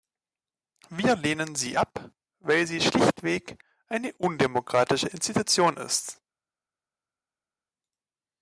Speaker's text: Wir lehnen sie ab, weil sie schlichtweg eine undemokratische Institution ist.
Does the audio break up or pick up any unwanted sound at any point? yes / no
no